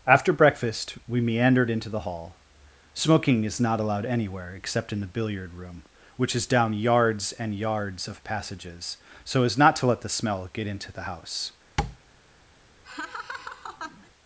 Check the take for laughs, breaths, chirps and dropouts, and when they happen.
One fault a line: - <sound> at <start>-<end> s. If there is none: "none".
- tap at 11.8-12.0 s
- laugh at 12.8-14.1 s